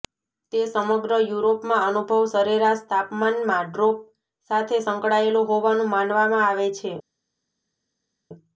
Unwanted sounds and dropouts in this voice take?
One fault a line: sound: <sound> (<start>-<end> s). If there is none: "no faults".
no faults